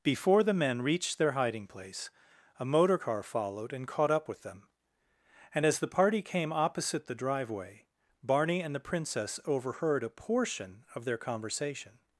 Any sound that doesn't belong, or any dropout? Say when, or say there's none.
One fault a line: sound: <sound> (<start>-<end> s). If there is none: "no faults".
no faults